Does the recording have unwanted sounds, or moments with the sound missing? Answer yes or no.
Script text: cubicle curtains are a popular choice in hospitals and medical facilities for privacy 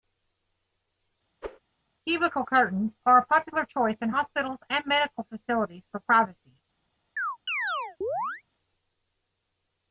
yes